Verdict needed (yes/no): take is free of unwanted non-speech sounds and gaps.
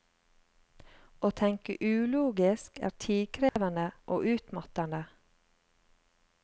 no